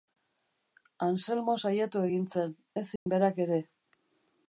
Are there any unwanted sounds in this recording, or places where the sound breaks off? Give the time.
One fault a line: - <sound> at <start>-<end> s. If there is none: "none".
- dropout at 3.0-3.1 s